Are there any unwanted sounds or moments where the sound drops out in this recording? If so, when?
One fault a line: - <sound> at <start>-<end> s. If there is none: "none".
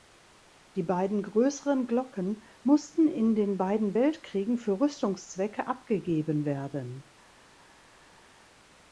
none